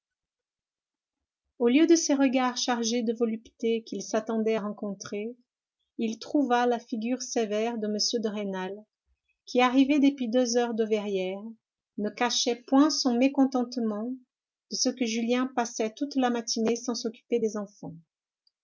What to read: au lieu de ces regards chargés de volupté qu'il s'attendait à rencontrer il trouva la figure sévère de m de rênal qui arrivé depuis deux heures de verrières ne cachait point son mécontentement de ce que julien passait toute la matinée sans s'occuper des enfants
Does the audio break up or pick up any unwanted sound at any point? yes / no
no